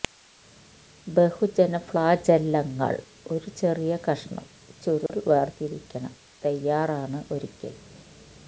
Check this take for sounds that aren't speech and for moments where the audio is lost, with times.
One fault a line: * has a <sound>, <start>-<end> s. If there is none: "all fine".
* has a dropout, 5.1-5.1 s